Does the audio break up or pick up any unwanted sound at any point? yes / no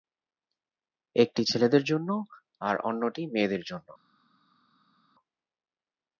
no